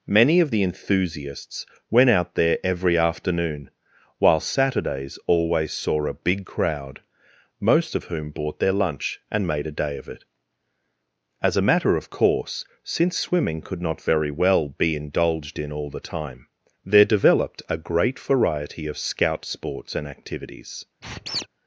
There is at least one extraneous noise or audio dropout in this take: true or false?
true